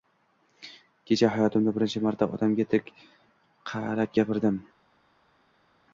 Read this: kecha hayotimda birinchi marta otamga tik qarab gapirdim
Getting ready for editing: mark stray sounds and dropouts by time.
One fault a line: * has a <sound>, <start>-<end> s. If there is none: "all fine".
all fine